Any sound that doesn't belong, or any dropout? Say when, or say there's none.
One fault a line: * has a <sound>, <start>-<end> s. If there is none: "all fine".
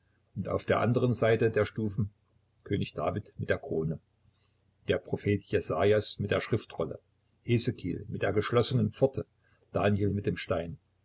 all fine